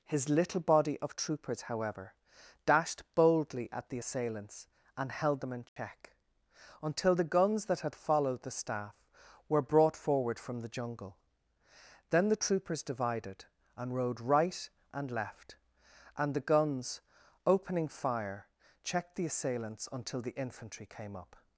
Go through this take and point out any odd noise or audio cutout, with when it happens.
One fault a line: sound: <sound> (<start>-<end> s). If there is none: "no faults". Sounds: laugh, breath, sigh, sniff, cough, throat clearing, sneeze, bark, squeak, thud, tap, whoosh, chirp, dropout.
sound: dropout (5.7-5.8 s)